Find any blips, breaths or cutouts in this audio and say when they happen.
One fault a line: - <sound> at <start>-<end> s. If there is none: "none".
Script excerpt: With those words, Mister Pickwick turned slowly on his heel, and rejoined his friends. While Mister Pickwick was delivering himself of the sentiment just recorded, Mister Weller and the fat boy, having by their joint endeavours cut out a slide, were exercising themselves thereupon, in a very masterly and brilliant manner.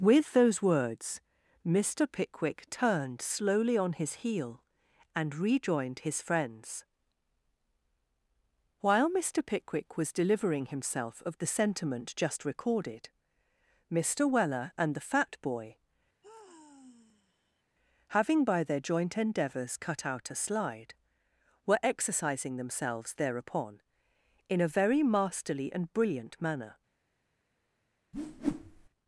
- sigh at 16.2-17.6 s
- whoosh at 28.1-28.9 s